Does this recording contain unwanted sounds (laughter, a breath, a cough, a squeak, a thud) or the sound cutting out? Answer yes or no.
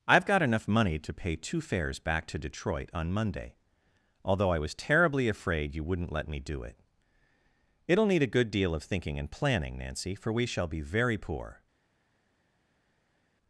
no